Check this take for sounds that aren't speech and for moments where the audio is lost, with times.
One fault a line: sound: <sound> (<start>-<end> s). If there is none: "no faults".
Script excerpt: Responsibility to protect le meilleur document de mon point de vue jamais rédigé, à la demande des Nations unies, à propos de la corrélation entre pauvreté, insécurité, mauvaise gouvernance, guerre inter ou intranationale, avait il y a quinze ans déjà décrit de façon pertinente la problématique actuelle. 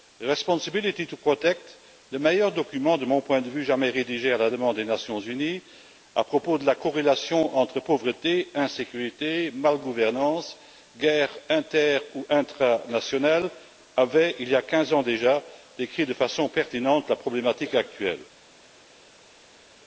no faults